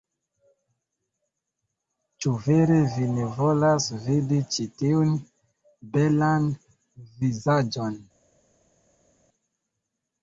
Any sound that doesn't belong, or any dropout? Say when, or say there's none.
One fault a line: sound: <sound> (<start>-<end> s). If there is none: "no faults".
no faults